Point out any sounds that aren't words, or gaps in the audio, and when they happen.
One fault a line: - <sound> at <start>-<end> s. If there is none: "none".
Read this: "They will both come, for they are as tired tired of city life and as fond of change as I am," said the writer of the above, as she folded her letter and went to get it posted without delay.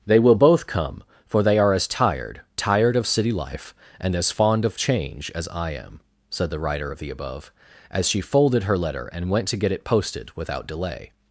none